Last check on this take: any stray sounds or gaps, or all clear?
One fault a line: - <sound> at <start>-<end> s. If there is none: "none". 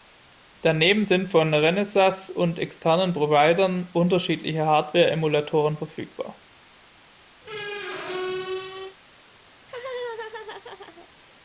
- squeak at 7.4-9.0 s
- laugh at 9.6-11.1 s